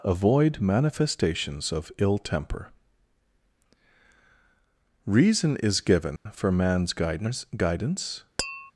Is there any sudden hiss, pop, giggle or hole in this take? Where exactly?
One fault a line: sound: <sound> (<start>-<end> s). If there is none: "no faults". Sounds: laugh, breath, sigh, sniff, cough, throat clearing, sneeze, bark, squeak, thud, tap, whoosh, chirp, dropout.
sound: dropout (6.2-6.3 s)
sound: tap (8.4-8.7 s)